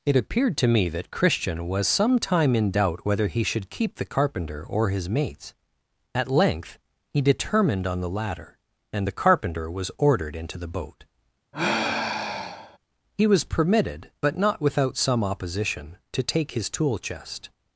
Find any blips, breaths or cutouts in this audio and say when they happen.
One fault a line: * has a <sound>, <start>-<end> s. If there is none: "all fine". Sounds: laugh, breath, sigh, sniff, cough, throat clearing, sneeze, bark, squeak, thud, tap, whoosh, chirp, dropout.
* has a sigh, 11.5-12.8 s